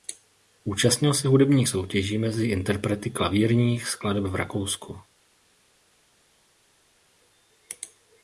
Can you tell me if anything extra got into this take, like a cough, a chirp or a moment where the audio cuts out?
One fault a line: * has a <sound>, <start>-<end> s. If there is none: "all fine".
all fine